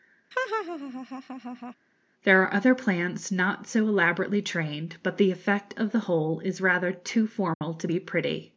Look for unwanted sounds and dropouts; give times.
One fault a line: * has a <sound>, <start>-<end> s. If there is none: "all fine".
* has a laugh, 0.3-1.7 s
* has a dropout, 7.5-7.6 s